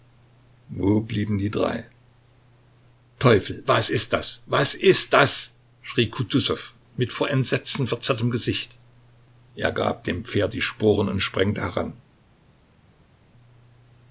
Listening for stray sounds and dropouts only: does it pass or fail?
pass